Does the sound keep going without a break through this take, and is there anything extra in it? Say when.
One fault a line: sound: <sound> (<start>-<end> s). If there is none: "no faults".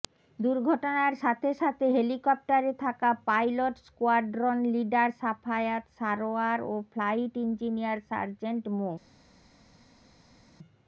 no faults